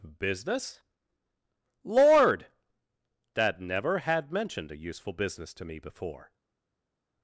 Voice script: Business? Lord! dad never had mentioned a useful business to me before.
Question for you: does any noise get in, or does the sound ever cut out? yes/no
no